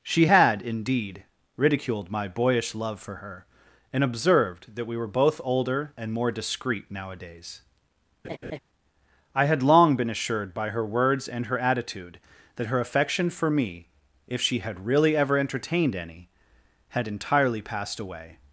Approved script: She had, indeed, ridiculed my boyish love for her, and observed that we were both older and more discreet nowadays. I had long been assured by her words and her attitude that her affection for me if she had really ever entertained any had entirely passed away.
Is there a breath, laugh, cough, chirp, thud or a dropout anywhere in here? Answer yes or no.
yes